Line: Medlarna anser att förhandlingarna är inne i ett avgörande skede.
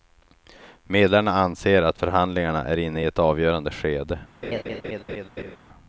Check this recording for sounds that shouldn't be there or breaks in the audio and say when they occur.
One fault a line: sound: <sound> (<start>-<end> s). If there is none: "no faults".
sound: laugh (4.4-5.6 s)